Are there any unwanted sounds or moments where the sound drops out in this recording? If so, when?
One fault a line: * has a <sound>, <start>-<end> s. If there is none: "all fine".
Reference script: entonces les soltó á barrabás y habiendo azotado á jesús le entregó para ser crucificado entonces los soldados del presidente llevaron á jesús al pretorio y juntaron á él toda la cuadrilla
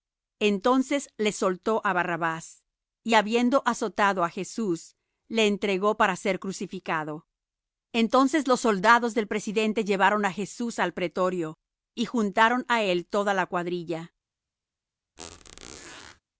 * has a squeak, 15.2-16.2 s